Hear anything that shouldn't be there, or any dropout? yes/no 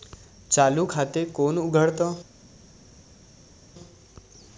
no